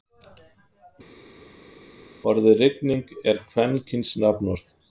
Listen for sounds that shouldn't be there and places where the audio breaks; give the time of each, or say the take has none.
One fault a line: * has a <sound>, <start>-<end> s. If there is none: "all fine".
all fine